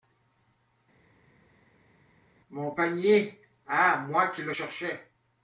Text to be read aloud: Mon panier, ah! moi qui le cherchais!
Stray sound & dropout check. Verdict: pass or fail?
pass